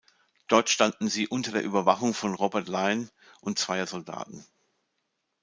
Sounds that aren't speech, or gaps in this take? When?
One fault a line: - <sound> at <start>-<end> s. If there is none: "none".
none